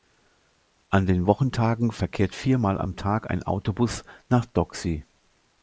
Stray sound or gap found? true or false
false